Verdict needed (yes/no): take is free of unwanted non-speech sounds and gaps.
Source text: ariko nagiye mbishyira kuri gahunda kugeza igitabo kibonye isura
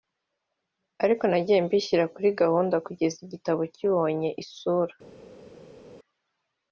yes